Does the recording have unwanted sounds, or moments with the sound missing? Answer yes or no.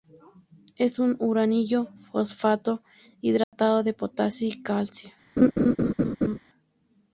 yes